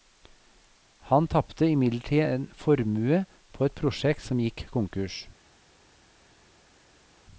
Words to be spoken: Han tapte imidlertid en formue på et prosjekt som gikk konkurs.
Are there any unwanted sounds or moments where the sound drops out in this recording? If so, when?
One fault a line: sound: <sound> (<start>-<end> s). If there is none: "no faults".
no faults